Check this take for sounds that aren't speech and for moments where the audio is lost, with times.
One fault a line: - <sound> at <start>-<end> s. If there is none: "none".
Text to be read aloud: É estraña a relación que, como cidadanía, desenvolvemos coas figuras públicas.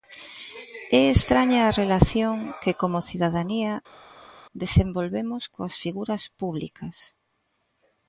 none